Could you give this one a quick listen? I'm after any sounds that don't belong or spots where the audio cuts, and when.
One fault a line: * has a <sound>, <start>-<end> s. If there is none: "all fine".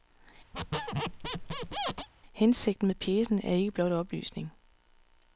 * has a squeak, 0.5-2.1 s